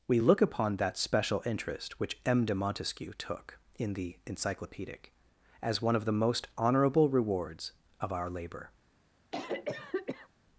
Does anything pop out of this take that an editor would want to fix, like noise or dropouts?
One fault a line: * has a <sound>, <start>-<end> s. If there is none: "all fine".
* has a cough, 9.3-10.3 s